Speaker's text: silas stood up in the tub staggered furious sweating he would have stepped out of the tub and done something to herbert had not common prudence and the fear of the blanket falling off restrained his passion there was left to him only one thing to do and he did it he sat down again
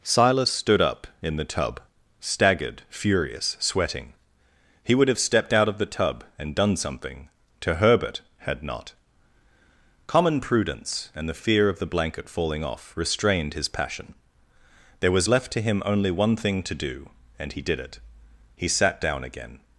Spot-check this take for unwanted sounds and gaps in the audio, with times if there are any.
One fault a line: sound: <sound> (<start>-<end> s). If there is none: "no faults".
no faults